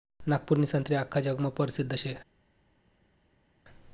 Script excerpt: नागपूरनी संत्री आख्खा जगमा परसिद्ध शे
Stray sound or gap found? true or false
false